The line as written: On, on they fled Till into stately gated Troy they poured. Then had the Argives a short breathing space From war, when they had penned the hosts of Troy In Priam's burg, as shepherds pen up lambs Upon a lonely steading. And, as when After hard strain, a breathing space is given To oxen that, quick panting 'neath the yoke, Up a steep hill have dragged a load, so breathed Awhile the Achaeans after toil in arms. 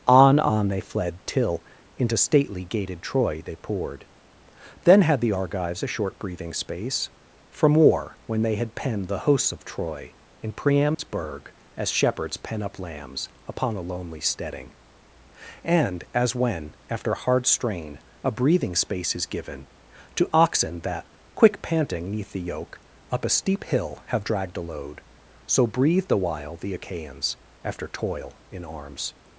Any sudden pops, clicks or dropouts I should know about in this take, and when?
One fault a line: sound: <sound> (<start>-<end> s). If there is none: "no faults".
sound: dropout (10.9-11.0 s)